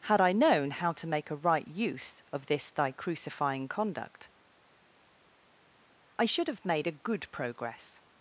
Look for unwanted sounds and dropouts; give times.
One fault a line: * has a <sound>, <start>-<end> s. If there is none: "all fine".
all fine